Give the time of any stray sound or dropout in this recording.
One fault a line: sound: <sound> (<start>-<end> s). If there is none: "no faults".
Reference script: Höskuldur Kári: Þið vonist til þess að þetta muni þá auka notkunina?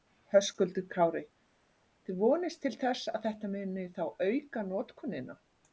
no faults